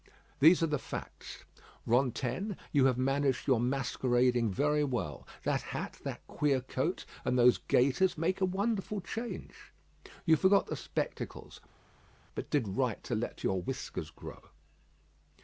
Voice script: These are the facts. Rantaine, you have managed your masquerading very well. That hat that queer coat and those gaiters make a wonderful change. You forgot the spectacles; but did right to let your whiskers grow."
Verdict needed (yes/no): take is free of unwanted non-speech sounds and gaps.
yes